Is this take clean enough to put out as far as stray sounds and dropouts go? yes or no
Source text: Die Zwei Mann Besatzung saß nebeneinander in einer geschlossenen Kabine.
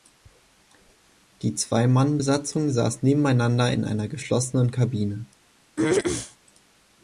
no